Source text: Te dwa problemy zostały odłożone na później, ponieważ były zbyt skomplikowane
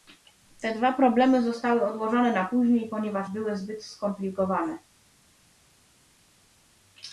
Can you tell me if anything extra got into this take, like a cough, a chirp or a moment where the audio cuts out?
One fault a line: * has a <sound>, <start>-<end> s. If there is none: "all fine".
all fine